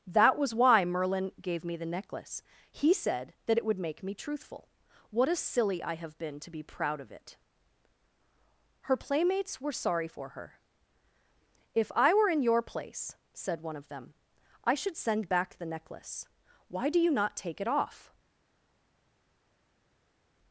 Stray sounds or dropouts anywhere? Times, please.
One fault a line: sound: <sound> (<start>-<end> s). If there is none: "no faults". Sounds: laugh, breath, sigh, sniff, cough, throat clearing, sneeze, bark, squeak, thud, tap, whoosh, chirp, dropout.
no faults